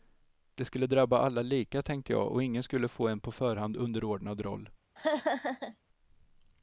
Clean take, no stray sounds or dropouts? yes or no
no